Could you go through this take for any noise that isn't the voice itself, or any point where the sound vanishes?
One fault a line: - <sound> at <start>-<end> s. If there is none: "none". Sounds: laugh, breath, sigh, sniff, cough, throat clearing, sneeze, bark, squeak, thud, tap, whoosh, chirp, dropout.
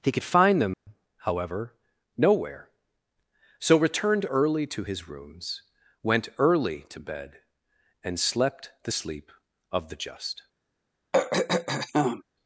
- dropout at 0.7-0.9 s
- throat clearing at 11.1-12.2 s